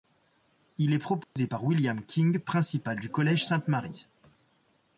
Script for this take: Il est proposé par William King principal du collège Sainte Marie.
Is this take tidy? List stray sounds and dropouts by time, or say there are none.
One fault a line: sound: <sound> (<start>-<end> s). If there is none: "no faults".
sound: dropout (1.2-1.4 s)